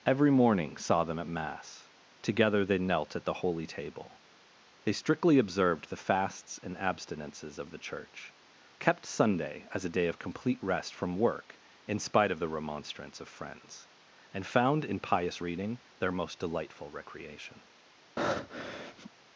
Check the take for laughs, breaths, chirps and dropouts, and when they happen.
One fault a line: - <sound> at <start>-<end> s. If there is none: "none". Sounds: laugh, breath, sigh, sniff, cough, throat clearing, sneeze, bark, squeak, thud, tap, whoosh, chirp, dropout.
- breath at 18.2-19.1 s